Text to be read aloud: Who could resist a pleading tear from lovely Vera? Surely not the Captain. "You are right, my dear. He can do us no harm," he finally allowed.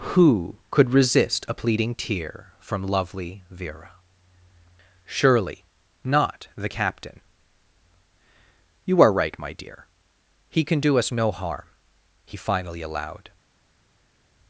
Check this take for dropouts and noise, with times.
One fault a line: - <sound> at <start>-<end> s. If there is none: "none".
none